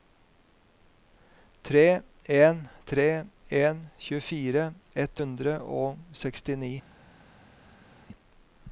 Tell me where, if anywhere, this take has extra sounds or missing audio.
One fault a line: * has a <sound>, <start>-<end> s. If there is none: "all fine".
all fine